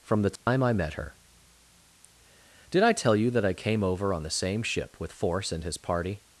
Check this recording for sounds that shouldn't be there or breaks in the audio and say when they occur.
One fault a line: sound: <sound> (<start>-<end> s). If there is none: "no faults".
sound: dropout (0.4-0.5 s)